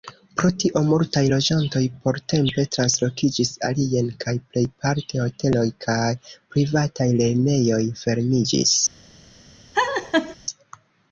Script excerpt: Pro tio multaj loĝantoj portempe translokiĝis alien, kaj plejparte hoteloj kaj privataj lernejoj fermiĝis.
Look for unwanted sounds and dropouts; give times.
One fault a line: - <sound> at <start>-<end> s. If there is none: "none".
- laugh at 9.7-10.4 s